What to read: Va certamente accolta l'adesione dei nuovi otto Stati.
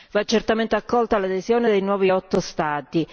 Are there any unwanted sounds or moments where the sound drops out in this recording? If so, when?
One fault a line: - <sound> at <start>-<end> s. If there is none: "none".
none